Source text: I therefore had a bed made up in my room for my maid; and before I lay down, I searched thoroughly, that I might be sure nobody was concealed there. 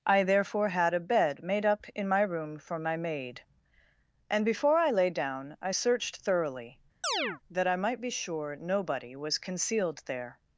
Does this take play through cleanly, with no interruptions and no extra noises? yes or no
no